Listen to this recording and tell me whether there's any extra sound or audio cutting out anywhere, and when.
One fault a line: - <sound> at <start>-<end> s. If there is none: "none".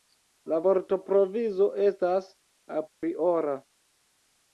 - dropout at 2.9-3.0 s